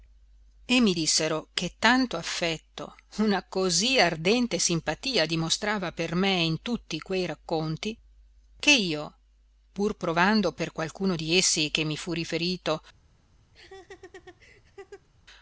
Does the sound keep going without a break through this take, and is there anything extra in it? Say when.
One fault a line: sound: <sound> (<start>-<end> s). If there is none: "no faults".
sound: laugh (13.5-15.1 s)